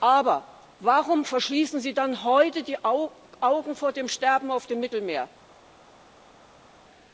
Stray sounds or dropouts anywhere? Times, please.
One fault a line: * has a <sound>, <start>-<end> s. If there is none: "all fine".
all fine